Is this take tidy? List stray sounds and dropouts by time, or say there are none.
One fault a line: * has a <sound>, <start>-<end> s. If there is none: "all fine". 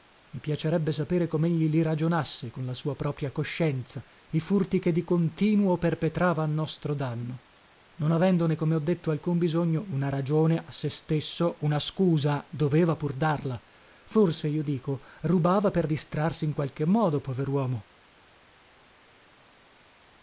all fine